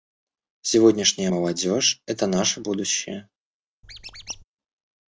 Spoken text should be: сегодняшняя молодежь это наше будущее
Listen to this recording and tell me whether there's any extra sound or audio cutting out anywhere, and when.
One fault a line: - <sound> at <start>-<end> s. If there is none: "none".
- squeak at 3.8-4.4 s